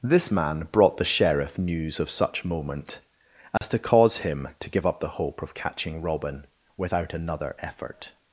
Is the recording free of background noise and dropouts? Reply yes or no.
no